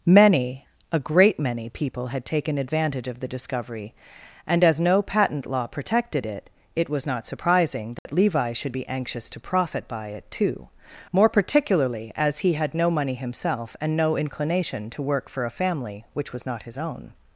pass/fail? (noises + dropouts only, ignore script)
fail